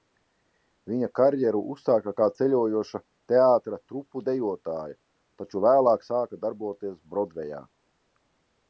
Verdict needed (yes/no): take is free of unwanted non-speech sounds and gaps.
yes